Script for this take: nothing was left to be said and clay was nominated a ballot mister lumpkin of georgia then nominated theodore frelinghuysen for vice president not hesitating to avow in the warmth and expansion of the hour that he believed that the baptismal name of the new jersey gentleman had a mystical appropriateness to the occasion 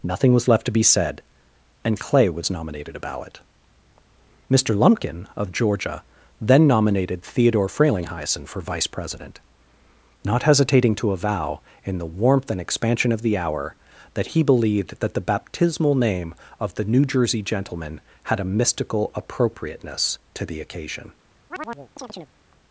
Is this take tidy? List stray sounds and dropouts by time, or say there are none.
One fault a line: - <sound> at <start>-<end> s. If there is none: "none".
- chirp at 21.5-22.3 s